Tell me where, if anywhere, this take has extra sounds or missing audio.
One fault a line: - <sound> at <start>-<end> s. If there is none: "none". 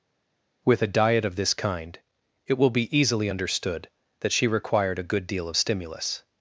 none